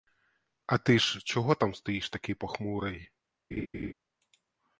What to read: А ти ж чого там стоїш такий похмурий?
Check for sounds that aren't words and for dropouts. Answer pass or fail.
fail